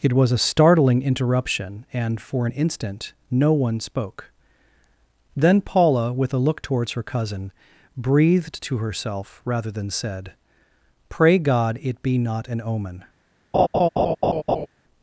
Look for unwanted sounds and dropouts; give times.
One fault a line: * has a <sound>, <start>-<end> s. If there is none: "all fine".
* has a laugh, 13.5-14.7 s